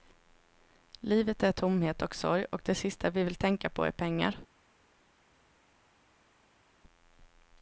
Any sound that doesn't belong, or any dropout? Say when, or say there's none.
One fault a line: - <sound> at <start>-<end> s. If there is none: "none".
none